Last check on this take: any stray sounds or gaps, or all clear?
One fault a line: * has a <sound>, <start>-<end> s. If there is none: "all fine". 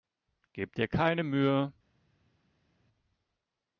all fine